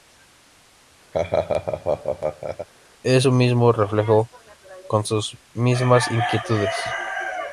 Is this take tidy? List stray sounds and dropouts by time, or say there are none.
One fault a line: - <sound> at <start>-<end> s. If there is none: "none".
- laugh at 1.1-2.7 s